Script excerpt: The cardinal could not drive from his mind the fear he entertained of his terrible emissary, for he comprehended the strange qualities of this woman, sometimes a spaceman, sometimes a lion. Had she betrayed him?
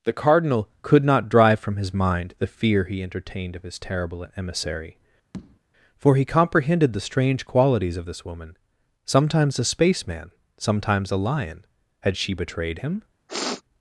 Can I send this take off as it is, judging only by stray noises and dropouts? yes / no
no